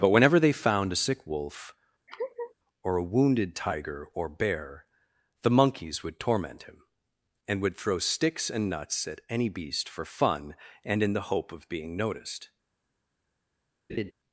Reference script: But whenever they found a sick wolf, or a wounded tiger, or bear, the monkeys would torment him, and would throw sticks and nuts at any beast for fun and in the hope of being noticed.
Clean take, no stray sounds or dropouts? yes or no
no